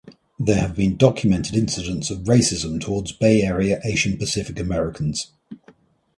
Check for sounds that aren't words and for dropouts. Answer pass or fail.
pass